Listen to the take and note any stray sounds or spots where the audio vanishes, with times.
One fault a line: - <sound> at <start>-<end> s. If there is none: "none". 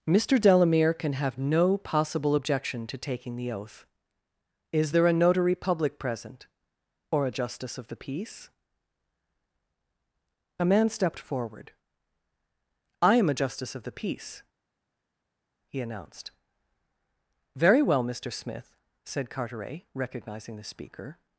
none